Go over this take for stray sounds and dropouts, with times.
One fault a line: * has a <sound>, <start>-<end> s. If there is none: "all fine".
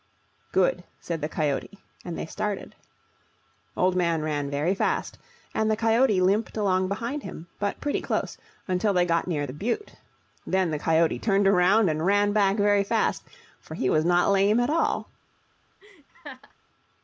* has a laugh, 15.8-16.5 s